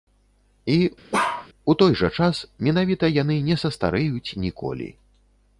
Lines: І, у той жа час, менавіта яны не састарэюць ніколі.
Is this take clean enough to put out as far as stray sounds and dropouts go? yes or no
no